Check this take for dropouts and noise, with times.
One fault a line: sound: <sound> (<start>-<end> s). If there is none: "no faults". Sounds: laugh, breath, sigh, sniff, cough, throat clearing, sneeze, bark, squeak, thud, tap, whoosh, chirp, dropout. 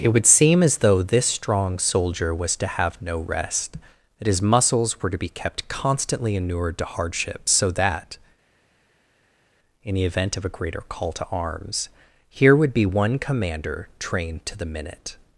no faults